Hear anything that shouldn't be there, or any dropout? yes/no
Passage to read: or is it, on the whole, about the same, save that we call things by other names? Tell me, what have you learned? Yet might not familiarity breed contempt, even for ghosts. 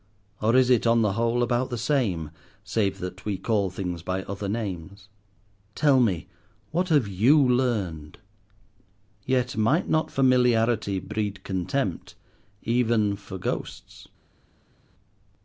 no